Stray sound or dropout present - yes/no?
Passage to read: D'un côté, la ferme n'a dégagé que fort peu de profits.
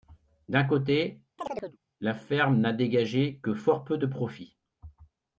yes